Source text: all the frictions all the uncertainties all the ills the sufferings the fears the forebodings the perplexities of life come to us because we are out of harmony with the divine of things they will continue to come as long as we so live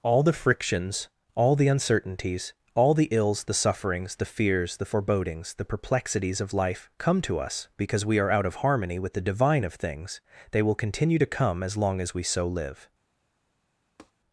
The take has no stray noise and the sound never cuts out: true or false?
false